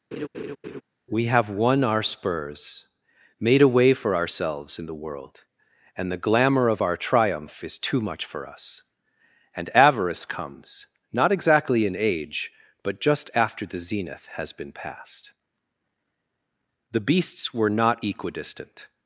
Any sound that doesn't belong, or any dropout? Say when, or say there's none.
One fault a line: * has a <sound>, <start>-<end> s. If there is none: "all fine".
* has a laugh, 0.1-0.8 s